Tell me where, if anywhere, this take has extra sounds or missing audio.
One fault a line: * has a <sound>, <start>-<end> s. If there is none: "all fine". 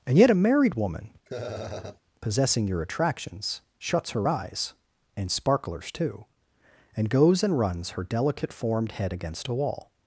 * has a laugh, 1.3-2.0 s